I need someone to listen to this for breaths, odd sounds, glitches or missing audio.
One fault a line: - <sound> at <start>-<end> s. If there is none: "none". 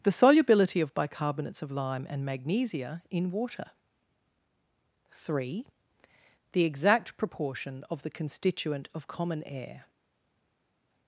none